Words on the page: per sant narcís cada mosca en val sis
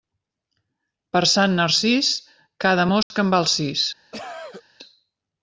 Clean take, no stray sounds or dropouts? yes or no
no